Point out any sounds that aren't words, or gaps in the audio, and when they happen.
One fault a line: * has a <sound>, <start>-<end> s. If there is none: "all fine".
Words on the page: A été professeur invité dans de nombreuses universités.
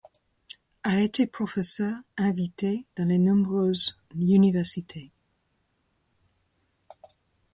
all fine